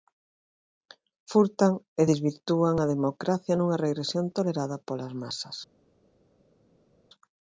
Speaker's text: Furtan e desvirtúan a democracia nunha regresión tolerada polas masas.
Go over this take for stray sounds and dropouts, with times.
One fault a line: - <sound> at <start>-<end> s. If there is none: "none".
none